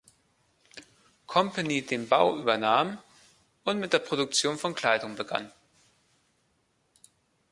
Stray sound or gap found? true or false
false